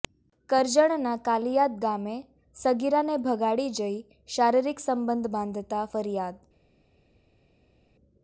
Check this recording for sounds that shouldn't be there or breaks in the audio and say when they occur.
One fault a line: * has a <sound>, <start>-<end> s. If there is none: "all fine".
all fine